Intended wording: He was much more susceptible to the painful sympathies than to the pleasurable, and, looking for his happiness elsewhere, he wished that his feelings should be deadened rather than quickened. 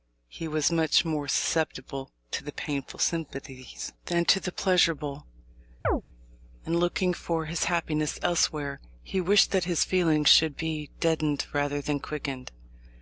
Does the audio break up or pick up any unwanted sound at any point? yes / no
yes